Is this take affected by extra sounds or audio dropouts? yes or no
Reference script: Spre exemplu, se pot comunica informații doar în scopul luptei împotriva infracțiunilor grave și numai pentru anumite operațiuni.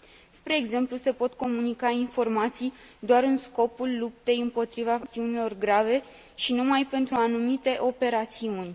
no